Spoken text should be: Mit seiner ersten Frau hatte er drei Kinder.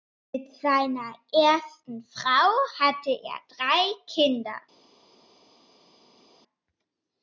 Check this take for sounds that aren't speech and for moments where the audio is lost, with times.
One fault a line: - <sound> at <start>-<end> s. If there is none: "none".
none